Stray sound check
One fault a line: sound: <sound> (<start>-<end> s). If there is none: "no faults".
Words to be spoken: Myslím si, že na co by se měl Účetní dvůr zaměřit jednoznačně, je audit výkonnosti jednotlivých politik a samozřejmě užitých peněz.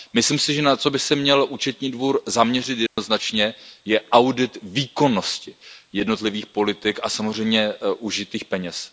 sound: dropout (2.9-3.0 s)